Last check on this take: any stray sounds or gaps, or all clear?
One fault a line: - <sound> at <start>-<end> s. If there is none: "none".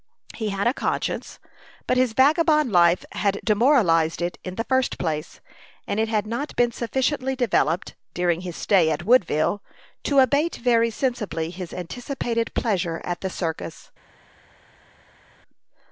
none